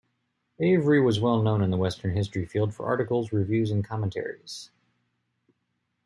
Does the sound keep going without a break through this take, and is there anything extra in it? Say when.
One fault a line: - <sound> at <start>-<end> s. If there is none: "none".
none